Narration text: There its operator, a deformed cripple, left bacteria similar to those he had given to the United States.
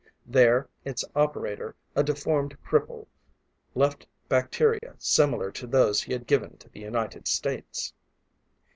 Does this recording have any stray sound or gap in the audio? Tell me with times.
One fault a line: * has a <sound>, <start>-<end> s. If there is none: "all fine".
* has a dropout, 4.8-4.8 s